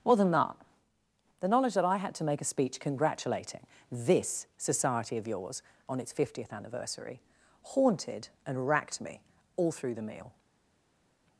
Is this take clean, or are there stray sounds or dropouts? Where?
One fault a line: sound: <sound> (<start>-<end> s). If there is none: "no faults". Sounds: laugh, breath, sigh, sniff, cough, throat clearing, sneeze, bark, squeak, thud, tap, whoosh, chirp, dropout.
no faults